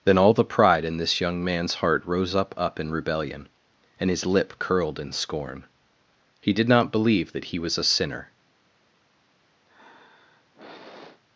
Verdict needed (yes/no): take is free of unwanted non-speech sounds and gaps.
no